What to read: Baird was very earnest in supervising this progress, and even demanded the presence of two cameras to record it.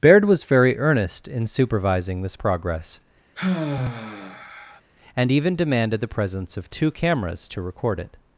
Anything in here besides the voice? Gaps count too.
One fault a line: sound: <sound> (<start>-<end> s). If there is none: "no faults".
sound: sigh (3.3-4.8 s)